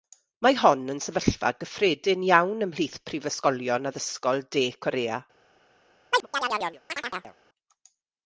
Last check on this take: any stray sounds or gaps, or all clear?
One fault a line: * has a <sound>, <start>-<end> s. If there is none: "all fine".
* has a chirp, 6.1-7.3 s